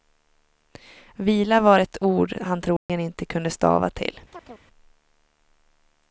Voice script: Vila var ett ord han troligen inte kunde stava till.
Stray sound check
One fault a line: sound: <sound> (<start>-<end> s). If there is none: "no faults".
sound: dropout (2.8-2.9 s)
sound: chirp (4.3-4.6 s)